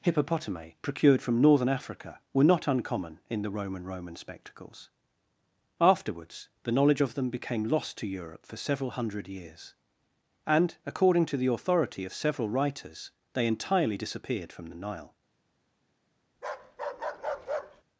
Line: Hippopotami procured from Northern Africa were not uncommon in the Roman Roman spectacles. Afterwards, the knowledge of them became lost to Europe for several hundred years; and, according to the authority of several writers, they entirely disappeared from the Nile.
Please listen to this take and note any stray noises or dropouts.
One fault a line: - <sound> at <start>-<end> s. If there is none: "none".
- bark at 16.3-17.8 s